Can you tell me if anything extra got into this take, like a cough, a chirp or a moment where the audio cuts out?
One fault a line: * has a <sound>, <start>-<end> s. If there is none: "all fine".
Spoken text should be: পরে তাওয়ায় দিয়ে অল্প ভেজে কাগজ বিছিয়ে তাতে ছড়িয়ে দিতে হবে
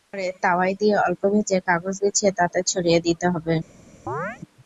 * has a chirp, 4.1-4.4 s